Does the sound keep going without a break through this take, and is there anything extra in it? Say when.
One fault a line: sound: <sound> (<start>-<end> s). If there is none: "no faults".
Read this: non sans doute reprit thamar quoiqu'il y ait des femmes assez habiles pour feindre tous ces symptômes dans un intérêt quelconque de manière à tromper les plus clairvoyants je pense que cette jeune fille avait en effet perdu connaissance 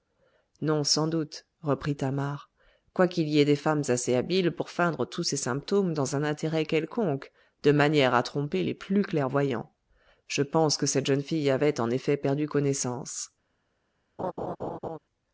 sound: laugh (14.2-15.0 s)